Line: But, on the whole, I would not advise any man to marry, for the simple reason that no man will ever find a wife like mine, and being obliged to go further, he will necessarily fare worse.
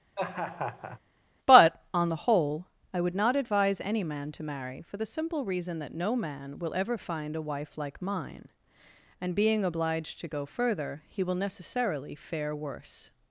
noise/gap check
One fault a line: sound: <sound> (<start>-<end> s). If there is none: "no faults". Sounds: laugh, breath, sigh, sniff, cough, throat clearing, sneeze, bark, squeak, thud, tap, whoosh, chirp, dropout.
sound: laugh (0.2-1.0 s)